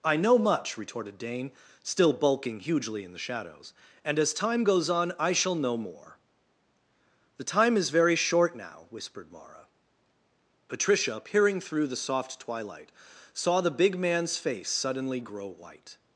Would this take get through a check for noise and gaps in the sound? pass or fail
pass